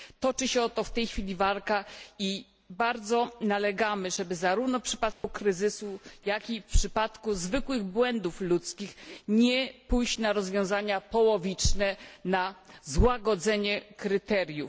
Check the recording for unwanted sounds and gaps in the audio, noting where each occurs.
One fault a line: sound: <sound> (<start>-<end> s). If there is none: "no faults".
sound: dropout (5.1-5.2 s)